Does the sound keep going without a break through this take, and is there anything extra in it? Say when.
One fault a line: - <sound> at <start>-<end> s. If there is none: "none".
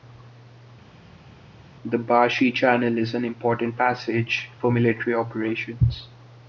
none